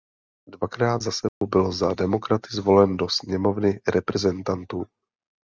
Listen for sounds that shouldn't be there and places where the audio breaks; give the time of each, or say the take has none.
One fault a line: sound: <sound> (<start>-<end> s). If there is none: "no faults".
sound: dropout (1.3-1.4 s)